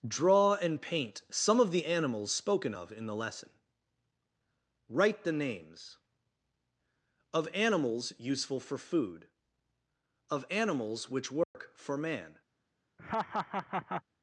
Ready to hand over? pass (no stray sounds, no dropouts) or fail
fail